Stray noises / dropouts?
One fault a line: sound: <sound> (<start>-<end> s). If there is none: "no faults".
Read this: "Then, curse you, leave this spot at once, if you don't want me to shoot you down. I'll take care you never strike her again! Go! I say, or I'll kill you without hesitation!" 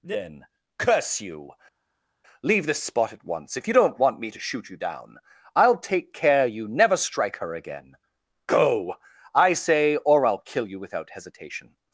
no faults